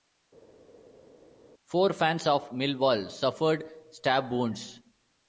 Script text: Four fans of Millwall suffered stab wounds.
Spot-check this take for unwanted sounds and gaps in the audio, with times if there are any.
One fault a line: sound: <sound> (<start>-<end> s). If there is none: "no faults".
no faults